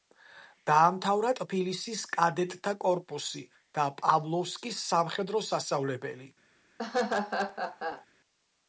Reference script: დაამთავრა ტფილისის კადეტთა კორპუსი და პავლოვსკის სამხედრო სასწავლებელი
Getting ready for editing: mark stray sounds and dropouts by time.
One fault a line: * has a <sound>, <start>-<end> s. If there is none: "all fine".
* has a laugh, 6.8-8.1 s